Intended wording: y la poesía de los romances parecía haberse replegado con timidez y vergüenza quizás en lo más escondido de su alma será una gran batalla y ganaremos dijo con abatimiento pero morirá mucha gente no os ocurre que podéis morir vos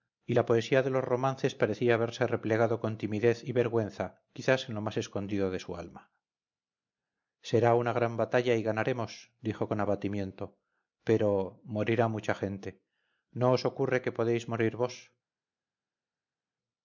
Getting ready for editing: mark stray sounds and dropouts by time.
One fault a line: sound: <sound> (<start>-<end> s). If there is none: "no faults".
no faults